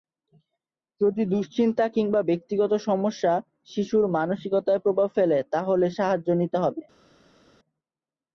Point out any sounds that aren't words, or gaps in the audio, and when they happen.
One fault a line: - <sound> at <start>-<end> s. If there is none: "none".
none